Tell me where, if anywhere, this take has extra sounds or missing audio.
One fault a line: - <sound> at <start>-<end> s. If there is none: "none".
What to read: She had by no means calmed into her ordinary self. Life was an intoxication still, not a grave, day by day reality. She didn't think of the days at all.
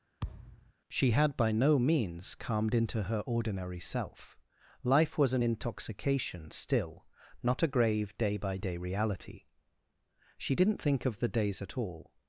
- thud at 0.2-0.7 s